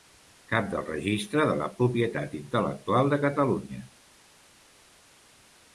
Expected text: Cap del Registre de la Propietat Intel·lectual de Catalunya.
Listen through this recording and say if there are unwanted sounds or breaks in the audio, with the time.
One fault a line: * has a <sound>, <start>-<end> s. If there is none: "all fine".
all fine